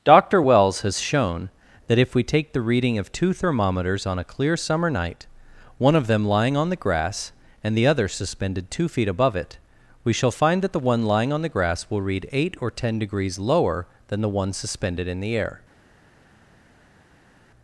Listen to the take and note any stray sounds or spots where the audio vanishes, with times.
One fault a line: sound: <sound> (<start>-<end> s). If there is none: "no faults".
no faults